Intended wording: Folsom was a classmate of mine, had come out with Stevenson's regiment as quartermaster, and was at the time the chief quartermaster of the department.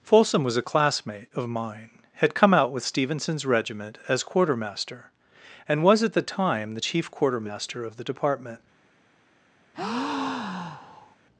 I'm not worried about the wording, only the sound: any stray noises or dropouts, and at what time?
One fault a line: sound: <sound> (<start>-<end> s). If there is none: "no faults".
sound: breath (9.7-11.2 s)